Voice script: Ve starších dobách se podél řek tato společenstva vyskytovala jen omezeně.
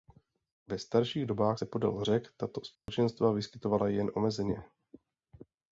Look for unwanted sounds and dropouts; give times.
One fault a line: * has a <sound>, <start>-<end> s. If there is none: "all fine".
* has a dropout, 2.8-2.9 s